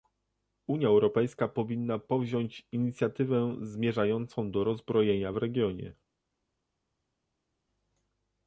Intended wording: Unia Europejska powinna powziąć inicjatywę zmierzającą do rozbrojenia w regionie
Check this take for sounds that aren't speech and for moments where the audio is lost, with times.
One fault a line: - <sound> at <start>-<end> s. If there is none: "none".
none